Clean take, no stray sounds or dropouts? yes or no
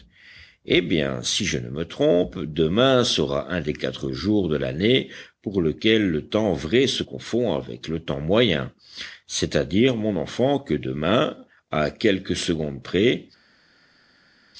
yes